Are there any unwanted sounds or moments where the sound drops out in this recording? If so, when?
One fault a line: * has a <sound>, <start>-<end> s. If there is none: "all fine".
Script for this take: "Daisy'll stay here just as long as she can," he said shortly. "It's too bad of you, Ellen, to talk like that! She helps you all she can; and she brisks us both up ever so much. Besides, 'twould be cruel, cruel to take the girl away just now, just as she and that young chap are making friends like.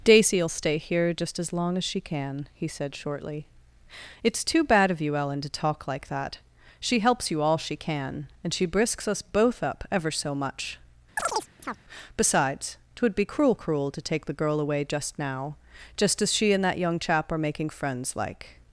* has a chirp, 11.2-11.8 s